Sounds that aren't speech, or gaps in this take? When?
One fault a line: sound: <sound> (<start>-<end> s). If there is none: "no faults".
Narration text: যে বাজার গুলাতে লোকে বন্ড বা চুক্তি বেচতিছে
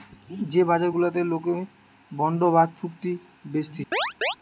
sound: chirp (3.9-4.4 s)